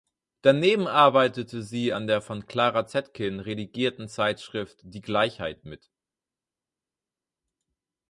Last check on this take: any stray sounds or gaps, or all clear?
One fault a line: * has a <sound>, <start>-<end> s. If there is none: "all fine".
all fine